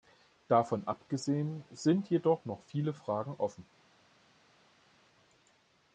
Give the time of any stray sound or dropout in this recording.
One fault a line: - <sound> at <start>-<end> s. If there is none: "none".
none